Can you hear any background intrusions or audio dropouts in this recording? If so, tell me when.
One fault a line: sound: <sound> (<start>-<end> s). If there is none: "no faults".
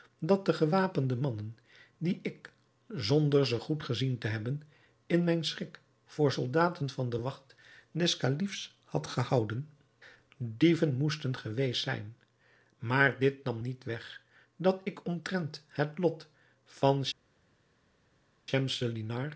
no faults